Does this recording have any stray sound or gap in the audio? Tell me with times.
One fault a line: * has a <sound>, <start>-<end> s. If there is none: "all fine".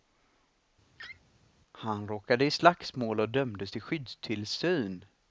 * has a laugh, 1.0-1.2 s